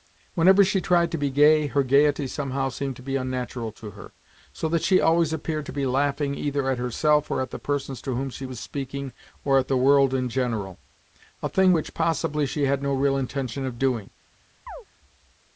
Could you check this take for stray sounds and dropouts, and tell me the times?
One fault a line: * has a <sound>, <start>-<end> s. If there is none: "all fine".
* has a chirp, 14.7-14.9 s